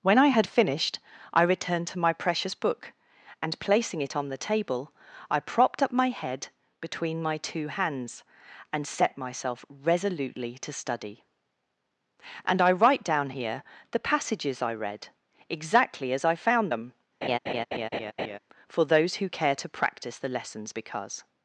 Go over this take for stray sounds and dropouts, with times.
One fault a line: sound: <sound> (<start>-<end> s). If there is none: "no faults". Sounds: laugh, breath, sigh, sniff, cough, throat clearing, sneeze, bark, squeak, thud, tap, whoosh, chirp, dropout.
sound: laugh (17.2-18.4 s)